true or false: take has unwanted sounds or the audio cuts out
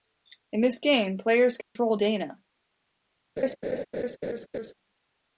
true